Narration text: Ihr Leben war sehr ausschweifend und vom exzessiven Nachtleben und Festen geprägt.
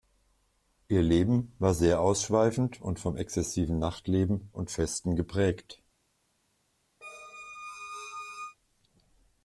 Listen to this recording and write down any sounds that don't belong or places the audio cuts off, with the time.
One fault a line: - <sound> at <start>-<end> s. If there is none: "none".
- squeak at 7.0-8.6 s